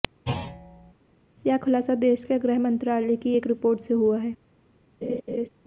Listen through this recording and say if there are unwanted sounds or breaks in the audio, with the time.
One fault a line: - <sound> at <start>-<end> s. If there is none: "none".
- thud at 0.3-0.9 s
- laugh at 5.0-5.5 s